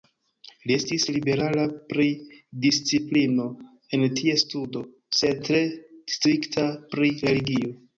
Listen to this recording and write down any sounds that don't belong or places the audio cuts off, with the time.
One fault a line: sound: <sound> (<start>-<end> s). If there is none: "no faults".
no faults